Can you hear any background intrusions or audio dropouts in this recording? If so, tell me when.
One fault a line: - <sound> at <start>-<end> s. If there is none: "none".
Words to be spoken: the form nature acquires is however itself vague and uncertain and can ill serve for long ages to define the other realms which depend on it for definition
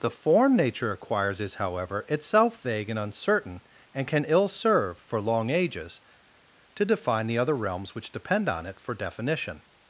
none